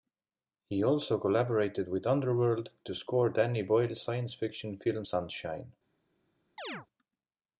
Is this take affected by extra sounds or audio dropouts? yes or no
yes